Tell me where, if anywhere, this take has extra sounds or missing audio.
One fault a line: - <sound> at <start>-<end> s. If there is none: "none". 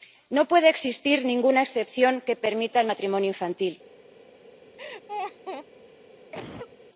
- laugh at 4.8-5.7 s
- cough at 6.3-6.8 s